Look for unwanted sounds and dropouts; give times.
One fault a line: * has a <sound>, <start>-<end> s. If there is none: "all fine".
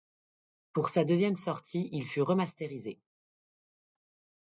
all fine